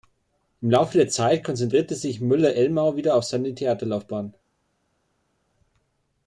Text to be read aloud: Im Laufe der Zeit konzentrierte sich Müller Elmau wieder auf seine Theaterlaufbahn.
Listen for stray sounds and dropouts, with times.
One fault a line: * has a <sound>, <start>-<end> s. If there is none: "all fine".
all fine